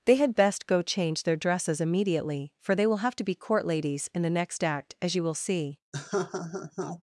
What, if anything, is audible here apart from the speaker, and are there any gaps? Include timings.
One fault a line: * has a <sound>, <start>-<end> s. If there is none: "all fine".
* has a laugh, 5.9-7.0 s